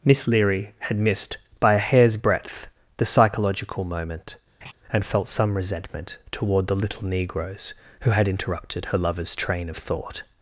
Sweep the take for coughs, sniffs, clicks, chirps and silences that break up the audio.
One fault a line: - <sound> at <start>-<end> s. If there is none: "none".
- laugh at 4.6-4.7 s